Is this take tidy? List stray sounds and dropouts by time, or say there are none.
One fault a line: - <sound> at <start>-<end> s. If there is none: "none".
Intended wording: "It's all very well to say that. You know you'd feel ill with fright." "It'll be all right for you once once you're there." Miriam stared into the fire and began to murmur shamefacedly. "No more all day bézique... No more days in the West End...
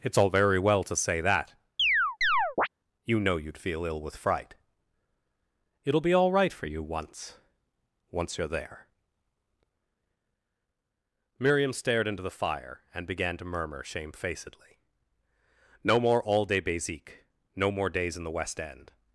- chirp at 1.8-2.7 s